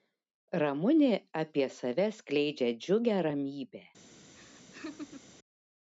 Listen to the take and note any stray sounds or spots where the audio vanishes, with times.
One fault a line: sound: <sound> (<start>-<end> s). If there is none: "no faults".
sound: laugh (4.3-5.3 s)